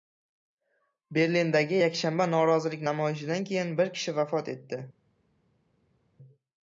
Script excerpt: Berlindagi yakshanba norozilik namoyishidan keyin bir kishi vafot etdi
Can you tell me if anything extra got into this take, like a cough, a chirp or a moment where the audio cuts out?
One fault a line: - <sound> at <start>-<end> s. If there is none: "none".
none